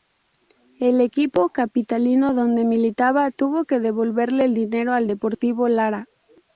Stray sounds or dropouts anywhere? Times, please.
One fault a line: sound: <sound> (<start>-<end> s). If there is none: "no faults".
no faults